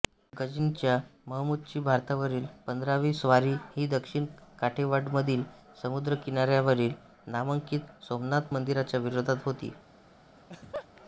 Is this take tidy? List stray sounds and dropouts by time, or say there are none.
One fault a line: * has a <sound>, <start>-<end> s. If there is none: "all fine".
* has a laugh, 10.4-10.9 s